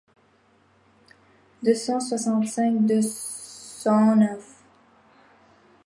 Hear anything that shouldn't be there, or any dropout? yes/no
no